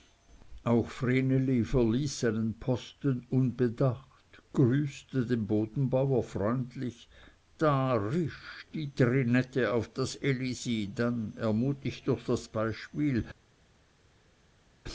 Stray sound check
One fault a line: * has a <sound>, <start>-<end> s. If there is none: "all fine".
all fine